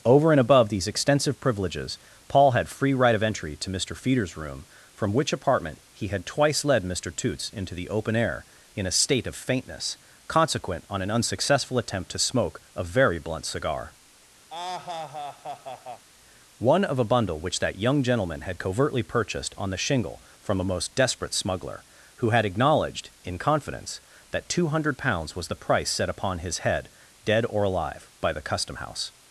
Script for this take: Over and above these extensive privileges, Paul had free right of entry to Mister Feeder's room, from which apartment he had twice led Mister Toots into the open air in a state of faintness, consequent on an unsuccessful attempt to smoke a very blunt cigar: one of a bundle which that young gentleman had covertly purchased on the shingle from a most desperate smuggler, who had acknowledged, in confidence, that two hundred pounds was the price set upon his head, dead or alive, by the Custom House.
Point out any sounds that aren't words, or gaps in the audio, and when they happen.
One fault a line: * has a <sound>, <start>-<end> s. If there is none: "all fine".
* has a laugh, 14.5-16.1 s